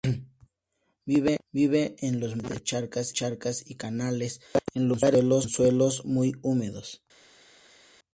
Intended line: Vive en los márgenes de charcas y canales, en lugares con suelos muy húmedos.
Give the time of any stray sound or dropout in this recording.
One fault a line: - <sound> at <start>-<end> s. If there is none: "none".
none